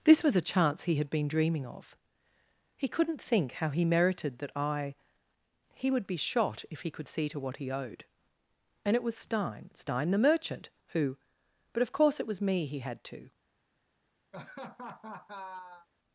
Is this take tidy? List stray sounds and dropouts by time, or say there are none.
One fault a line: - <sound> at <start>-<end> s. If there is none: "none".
- laugh at 14.3-15.9 s